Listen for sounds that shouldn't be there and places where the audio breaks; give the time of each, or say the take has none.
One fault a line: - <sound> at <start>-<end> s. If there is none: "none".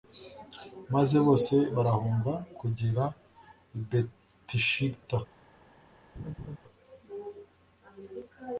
- laugh at 6.2-6.6 s